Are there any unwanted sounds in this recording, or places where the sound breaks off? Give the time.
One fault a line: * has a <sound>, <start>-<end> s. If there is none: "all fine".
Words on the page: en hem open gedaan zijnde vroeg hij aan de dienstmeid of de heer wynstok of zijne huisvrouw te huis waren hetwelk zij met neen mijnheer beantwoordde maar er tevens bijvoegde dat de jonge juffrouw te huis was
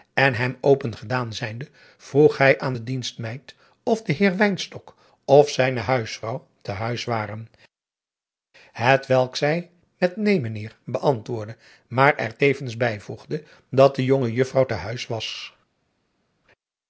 all fine